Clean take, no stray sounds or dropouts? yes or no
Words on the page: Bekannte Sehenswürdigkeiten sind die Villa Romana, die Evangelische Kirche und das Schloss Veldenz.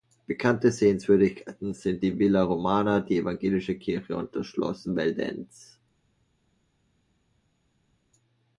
yes